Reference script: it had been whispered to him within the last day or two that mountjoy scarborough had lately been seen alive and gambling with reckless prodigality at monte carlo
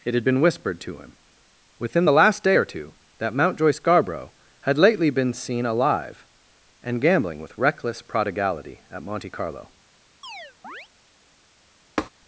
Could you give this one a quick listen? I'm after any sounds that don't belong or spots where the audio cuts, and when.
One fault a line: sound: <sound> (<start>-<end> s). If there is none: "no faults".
sound: chirp (10.2-10.9 s)
sound: tap (12.0-12.1 s)